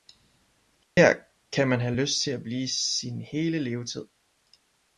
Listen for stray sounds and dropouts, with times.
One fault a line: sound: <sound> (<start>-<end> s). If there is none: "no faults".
sound: dropout (0.8-1.0 s)